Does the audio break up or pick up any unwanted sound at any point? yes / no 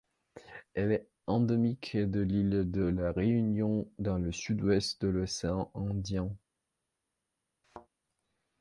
yes